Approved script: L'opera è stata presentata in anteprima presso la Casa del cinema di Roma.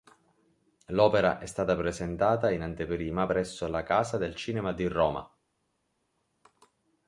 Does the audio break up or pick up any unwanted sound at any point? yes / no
no